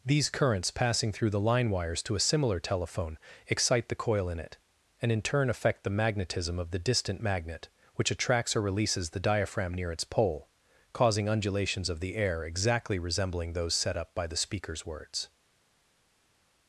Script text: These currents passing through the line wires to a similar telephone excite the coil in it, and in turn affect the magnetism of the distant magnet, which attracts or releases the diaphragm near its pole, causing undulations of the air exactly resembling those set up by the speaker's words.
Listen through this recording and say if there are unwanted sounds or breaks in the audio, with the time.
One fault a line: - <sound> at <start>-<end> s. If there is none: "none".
none